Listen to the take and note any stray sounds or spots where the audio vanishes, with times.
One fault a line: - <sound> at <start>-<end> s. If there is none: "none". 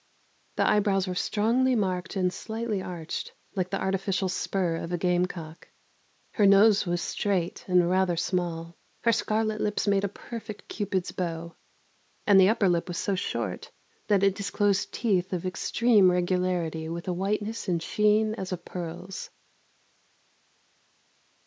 none